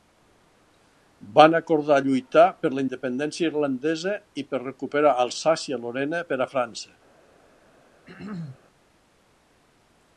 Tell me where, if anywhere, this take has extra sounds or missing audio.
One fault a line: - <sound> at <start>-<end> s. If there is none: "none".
- throat clearing at 8.1-8.6 s